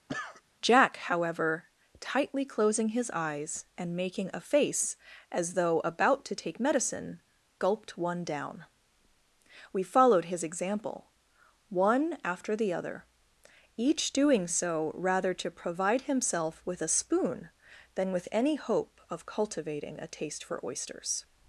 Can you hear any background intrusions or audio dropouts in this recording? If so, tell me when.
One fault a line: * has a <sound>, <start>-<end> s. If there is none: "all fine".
* has a cough, 0.1-0.4 s